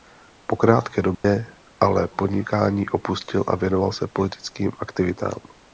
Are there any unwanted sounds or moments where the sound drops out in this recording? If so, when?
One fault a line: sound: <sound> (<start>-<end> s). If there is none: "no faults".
sound: dropout (1.1-1.2 s)